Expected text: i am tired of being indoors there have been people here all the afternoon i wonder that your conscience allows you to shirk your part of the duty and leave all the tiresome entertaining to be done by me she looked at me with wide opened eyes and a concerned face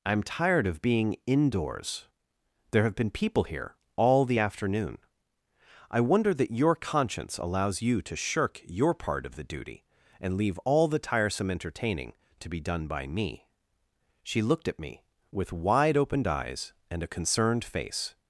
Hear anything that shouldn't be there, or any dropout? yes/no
no